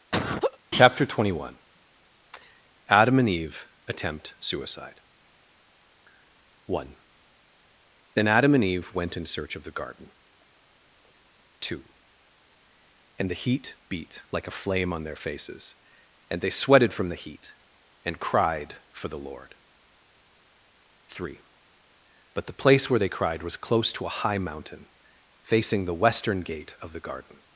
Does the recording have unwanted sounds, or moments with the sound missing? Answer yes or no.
yes